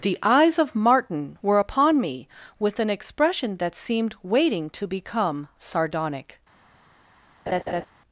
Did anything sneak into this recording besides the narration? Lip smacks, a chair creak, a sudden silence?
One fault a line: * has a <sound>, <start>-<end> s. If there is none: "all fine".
* has a laugh, 7.5-7.9 s